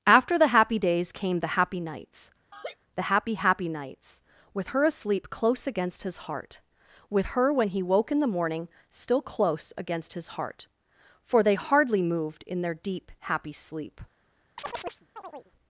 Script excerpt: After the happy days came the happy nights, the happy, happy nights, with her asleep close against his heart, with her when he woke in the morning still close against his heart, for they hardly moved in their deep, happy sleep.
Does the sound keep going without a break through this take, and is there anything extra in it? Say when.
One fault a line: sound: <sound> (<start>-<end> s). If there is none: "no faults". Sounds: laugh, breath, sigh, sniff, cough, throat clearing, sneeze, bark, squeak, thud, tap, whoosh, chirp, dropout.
sound: laugh (2.5-2.8 s)
sound: chirp (14.6-15.5 s)